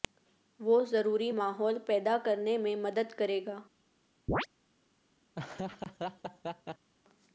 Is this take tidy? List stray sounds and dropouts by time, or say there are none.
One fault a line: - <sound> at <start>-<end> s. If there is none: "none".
- chirp at 4.3-4.5 s
- laugh at 5.3-6.9 s